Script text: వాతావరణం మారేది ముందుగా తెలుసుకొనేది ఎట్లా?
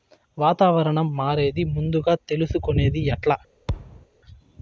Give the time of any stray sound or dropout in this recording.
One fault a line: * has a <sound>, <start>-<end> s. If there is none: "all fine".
* has a thud, 3.7-4.1 s